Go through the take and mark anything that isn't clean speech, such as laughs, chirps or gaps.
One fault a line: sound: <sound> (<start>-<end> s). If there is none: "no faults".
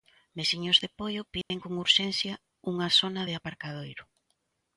sound: dropout (1.4-1.5 s)